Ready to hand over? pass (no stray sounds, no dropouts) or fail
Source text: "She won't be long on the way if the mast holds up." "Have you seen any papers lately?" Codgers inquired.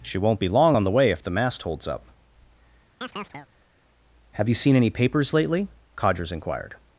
fail